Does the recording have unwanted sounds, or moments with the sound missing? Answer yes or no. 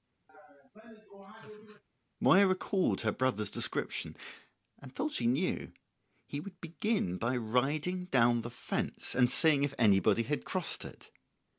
yes